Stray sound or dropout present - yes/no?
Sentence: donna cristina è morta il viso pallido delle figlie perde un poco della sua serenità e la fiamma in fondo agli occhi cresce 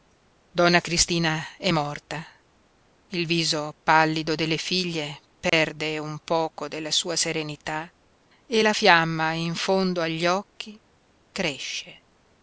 yes